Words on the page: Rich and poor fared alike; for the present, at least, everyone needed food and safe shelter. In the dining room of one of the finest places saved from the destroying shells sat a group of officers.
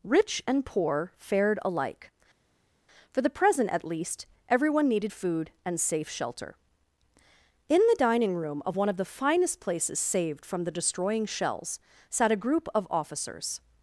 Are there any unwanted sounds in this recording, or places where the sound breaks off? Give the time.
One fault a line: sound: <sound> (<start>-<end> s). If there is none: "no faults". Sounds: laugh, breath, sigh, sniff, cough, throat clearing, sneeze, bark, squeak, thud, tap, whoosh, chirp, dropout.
no faults